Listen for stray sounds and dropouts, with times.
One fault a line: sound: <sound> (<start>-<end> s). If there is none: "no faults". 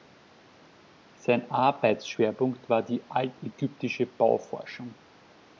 no faults